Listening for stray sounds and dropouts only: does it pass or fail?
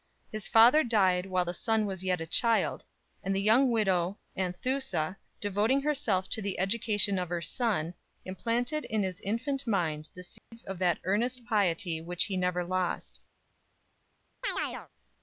fail